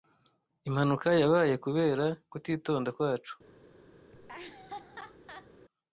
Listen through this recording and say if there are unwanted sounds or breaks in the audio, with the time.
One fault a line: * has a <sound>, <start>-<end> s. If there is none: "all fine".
* has a laugh, 4.1-5.5 s